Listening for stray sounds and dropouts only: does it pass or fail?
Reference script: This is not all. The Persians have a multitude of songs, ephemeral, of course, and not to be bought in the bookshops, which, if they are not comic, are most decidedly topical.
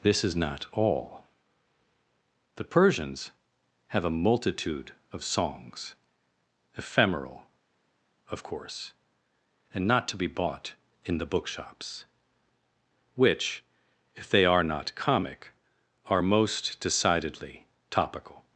pass